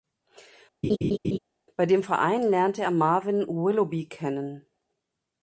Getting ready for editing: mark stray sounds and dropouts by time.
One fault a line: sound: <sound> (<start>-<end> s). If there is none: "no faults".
sound: laugh (0.8-1.4 s)